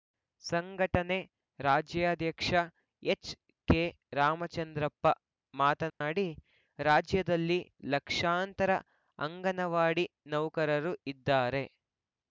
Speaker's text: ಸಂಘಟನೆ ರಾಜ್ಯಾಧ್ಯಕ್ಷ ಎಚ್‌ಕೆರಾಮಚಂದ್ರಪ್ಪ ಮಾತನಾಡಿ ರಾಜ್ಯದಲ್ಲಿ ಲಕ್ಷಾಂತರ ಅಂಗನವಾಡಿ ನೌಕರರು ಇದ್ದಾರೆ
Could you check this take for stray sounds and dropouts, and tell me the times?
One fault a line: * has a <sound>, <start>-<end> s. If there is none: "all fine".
* has a dropout, 5.9-6.0 s